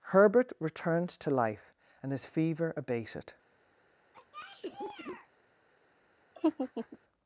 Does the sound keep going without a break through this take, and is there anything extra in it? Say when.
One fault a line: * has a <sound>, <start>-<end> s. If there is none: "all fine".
* has a cough, 4.1-5.3 s
* has a laugh, 6.4-7.0 s